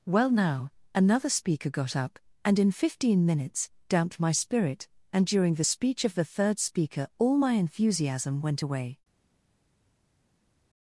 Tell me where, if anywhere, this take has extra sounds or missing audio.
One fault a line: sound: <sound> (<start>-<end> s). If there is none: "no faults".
no faults